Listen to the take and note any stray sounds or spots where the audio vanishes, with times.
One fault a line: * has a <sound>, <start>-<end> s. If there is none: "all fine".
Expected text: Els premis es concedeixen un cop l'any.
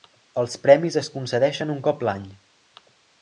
all fine